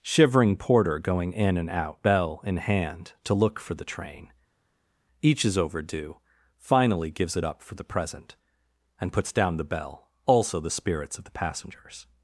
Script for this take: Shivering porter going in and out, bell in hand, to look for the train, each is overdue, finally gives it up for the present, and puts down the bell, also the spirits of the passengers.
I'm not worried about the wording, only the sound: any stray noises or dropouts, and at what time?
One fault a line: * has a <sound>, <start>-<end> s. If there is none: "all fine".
all fine